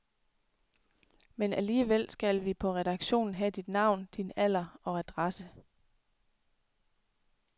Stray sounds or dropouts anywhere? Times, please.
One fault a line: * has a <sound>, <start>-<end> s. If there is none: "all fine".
all fine